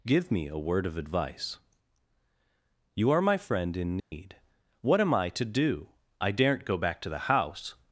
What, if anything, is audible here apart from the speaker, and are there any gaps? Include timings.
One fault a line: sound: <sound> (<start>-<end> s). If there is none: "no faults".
sound: dropout (4.0-4.1 s)